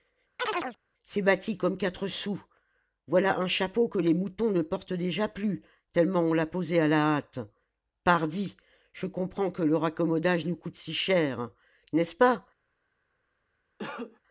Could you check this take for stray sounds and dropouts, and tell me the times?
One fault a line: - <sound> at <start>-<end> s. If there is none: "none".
- chirp at 0.4-0.8 s
- cough at 13.8-14.2 s